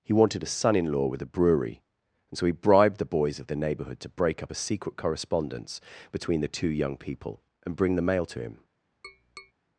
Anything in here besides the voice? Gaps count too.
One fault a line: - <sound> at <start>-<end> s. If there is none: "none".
- tap at 9.0-9.5 s